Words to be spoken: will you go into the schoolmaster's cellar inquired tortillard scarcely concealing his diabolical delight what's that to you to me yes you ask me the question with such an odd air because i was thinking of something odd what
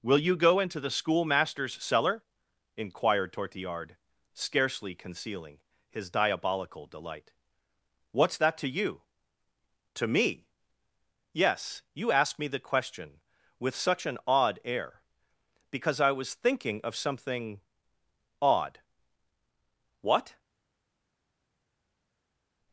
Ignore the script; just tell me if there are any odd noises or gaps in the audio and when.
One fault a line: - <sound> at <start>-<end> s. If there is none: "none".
none